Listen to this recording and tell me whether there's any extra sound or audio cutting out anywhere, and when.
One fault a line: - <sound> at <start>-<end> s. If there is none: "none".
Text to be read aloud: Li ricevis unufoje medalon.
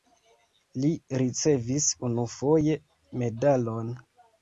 none